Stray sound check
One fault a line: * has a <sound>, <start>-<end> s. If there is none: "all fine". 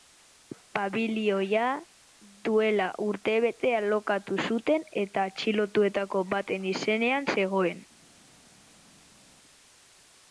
all fine